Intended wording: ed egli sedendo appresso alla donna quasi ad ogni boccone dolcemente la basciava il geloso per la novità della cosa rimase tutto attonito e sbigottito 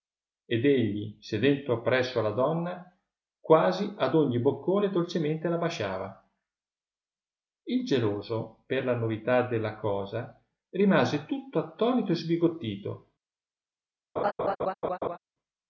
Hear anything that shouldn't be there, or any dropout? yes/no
yes